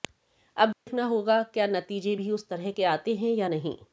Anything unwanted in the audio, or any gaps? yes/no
yes